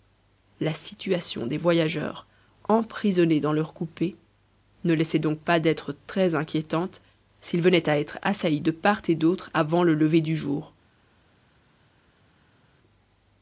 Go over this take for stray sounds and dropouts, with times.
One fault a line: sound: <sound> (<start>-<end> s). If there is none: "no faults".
no faults